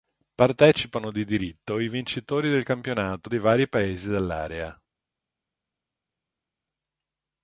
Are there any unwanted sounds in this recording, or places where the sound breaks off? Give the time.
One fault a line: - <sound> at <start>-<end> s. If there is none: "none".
none